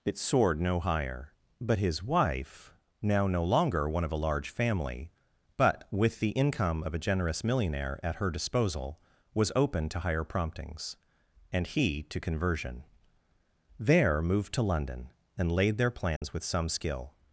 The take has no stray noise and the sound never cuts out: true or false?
false